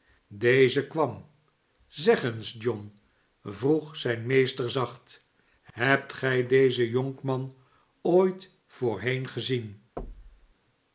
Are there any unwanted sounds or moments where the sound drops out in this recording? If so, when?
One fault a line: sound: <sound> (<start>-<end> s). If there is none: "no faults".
sound: thud (10.0-10.5 s)